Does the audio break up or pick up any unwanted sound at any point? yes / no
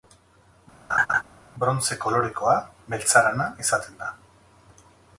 yes